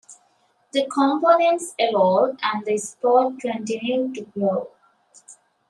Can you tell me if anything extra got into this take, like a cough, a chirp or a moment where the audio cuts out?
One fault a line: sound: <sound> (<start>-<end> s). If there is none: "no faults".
no faults